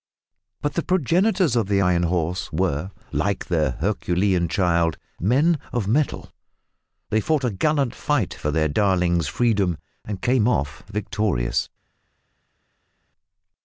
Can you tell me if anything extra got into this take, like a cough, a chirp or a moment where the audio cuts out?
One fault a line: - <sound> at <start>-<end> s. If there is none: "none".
none